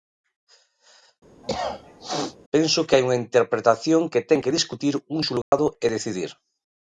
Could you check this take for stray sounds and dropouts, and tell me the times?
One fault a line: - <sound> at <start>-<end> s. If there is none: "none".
- cough at 1.4-2.4 s
- dropout at 5.4-5.5 s